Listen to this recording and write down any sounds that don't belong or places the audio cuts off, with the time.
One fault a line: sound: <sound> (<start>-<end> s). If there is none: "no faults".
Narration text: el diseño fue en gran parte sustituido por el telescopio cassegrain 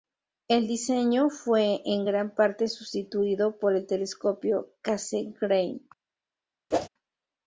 sound: whoosh (6.7-6.9 s)